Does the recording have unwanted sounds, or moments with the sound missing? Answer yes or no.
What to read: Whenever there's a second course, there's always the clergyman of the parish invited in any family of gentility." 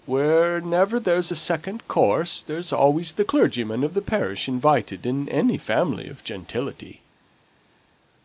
no